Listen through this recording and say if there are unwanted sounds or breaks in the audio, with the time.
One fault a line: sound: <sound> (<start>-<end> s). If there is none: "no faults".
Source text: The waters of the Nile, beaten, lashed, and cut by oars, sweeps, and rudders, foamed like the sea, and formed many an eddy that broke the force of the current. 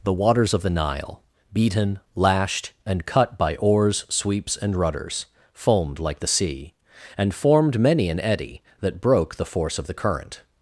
no faults